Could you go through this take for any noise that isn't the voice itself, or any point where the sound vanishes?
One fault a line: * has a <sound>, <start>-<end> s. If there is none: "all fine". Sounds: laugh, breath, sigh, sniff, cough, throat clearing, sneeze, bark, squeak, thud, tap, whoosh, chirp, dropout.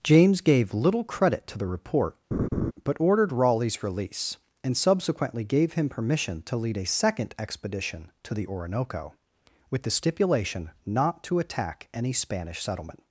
* has a laugh, 2.3-2.7 s